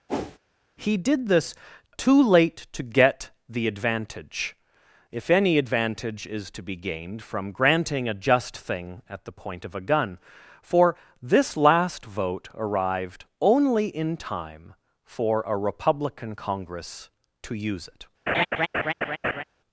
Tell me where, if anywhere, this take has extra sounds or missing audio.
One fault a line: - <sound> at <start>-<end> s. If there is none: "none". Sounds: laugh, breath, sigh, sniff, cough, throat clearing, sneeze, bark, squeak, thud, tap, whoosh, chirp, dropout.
- whoosh at 0.1-0.4 s
- laugh at 18.3-19.4 s